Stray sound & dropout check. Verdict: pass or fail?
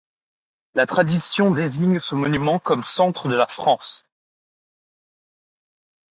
pass